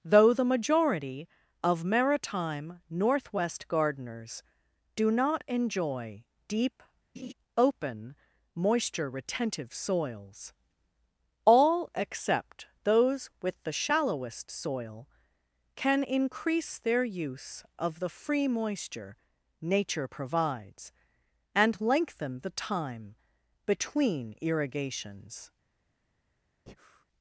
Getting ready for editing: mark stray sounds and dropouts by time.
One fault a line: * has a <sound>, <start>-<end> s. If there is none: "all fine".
* has a laugh, 7.2-7.3 s
* has a breath, 26.7-27.0 s